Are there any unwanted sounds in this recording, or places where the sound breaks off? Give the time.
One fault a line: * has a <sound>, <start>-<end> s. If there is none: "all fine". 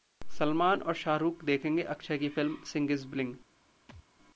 * has a thud, 3.9-4.0 s